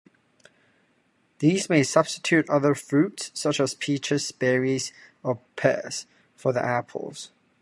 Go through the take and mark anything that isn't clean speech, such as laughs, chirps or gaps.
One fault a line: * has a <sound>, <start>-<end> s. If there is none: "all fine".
all fine